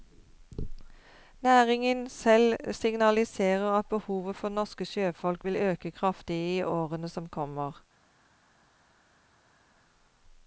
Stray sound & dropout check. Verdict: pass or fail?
pass